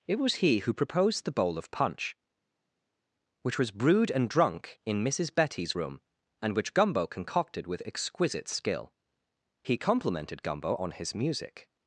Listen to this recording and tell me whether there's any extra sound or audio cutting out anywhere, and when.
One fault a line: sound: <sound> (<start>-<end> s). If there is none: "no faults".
no faults